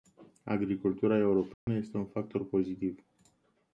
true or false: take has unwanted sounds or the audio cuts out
true